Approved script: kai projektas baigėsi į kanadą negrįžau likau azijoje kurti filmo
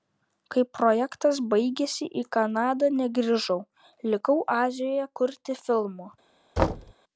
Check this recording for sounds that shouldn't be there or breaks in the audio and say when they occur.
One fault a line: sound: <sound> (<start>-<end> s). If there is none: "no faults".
sound: thud (6.6-6.9 s)